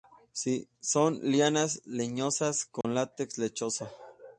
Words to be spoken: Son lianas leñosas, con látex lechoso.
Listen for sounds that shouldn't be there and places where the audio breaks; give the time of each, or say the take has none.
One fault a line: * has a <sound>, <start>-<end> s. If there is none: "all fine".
* has a dropout, 2.8-2.8 s